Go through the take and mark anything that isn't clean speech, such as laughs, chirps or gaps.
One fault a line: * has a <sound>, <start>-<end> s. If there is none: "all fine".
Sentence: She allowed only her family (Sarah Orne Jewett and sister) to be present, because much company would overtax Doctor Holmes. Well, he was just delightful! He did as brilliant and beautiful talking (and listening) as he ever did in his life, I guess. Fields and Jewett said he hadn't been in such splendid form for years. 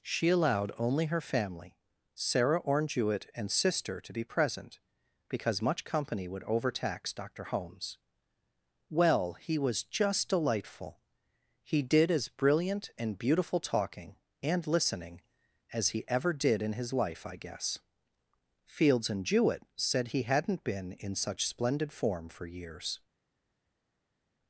all fine